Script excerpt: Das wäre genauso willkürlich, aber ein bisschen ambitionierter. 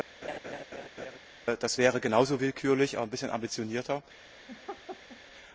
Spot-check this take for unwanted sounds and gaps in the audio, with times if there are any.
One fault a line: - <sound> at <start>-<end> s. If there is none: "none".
- laugh at 0.2-1.2 s
- laugh at 4.5-5.2 s